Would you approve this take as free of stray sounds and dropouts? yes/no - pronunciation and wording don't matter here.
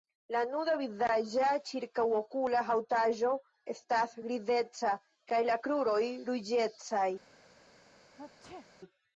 no